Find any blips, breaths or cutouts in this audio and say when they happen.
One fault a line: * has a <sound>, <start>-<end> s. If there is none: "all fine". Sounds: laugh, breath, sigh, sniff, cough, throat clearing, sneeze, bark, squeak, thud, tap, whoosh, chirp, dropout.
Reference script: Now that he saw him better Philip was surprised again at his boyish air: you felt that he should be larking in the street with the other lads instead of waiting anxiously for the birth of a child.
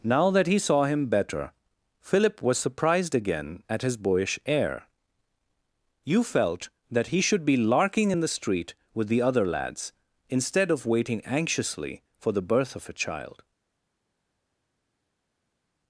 all fine